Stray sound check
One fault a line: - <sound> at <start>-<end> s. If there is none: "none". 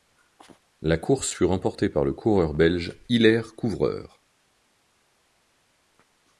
none